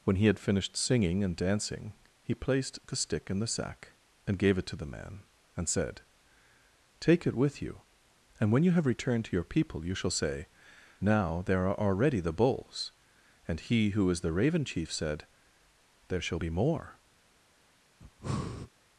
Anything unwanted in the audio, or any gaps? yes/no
yes